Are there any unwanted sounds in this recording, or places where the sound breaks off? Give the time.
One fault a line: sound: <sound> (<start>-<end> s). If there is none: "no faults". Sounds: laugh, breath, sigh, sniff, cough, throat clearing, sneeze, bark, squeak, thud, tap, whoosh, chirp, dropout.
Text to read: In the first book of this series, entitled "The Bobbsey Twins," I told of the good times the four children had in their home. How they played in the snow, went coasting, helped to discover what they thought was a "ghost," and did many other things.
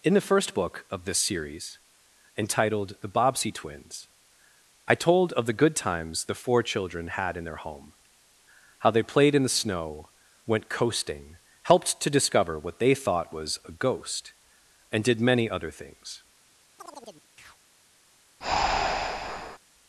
sound: chirp (16.8-17.6 s)
sound: breath (18.4-19.6 s)